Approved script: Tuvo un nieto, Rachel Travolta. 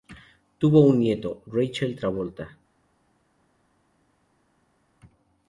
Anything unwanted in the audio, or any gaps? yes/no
no